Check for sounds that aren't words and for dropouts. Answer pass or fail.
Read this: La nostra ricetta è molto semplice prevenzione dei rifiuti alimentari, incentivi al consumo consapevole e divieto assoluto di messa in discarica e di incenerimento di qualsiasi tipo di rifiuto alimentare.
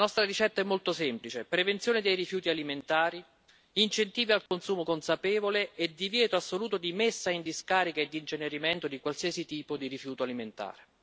fail